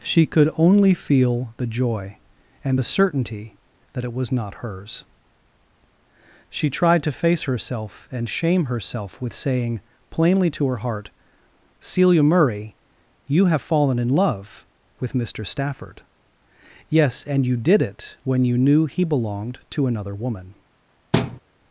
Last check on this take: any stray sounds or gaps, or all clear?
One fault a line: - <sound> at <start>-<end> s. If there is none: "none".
- thud at 21.1-21.4 s